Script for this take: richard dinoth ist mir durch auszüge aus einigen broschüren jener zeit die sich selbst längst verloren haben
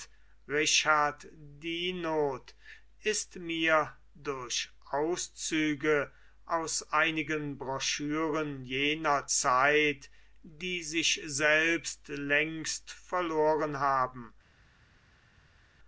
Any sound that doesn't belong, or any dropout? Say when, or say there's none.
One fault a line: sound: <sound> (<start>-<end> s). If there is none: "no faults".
no faults